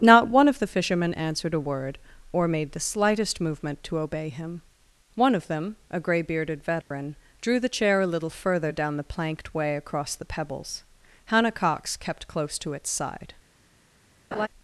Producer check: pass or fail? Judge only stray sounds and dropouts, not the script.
fail